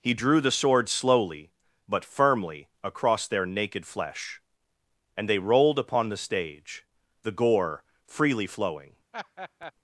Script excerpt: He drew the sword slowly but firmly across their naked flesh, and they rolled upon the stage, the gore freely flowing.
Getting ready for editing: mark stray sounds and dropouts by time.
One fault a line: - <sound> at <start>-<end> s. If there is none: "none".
- laugh at 9.1-9.7 s